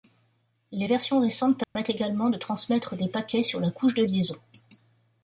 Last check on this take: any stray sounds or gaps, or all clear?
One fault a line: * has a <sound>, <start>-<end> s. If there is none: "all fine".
* has a dropout, 1.6-1.8 s